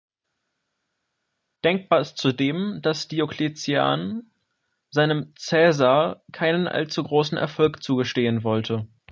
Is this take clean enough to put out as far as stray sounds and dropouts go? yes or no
yes